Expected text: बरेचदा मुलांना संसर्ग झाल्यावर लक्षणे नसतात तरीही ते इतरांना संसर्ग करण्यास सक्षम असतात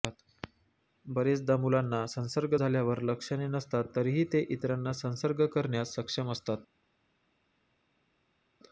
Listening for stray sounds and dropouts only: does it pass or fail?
pass